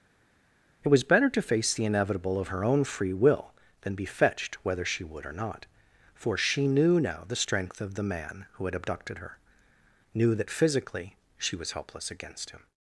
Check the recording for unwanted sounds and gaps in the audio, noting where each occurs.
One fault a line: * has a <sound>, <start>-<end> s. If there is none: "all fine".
all fine